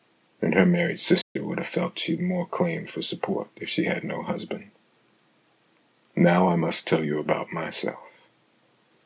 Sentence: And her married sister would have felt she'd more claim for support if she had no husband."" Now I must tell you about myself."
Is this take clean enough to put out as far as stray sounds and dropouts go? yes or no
no